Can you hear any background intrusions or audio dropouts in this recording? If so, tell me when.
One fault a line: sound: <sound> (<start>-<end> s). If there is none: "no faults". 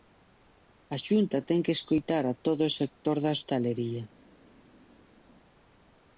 no faults